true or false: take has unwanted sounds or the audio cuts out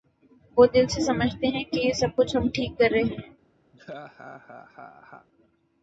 true